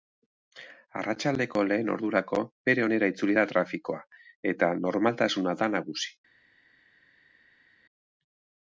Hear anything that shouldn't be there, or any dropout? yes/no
no